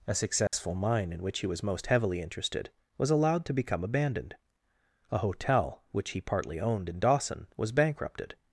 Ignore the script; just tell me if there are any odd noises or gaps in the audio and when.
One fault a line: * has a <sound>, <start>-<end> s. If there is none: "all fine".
* has a dropout, 0.5-0.5 s